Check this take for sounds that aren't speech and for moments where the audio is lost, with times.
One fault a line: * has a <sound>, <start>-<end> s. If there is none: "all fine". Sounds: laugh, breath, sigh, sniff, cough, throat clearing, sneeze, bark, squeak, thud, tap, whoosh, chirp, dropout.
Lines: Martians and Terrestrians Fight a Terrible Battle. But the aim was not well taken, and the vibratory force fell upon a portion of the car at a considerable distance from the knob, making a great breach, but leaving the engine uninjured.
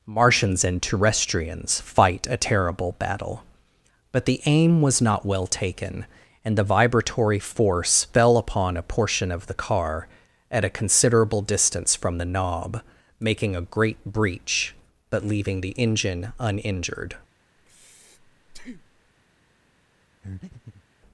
* has a breath, 17.6-19.1 s
* has a breath, 20.2-20.8 s